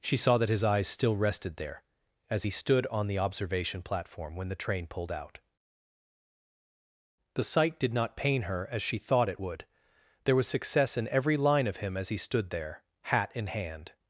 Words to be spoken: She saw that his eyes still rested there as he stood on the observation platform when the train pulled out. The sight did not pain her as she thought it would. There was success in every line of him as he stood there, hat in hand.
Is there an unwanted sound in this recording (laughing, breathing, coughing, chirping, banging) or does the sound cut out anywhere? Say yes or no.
no